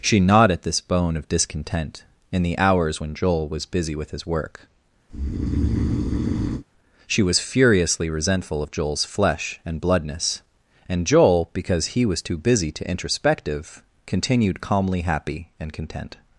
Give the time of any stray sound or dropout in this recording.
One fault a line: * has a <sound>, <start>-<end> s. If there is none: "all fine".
* has a breath, 5.1-6.6 s